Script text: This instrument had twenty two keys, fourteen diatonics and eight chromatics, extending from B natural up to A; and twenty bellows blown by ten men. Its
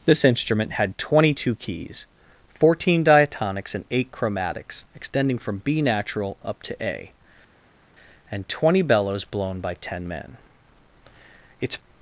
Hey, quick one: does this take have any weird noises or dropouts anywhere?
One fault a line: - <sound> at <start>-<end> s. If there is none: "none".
none